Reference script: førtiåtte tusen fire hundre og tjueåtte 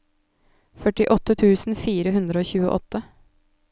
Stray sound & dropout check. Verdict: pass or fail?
pass